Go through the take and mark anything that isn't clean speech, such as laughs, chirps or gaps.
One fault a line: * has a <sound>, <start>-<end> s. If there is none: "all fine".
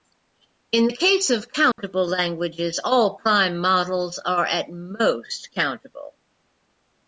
* has a dropout, 1.7-1.8 s